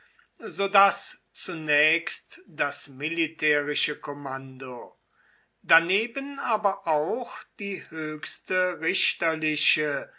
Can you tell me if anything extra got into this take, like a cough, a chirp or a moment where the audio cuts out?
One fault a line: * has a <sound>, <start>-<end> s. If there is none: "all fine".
all fine